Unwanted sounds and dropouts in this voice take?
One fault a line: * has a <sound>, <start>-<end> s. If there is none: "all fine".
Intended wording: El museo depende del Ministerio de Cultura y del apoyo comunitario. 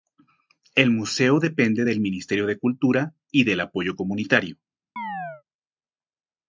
* has a chirp, 5.0-5.4 s